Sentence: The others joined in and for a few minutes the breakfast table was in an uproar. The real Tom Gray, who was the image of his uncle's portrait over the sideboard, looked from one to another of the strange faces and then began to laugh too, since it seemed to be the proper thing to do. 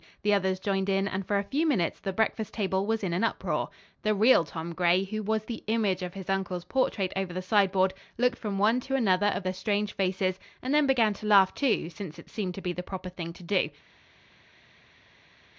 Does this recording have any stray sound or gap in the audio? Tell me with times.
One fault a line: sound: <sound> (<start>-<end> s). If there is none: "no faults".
no faults